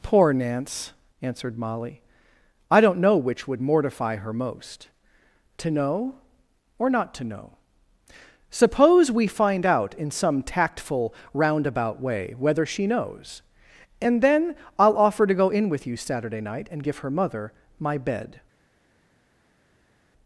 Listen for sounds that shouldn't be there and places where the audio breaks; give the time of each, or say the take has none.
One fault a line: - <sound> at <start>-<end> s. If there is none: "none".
none